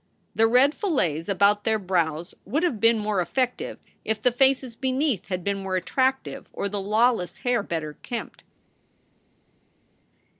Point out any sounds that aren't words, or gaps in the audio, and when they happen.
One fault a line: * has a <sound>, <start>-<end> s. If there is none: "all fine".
all fine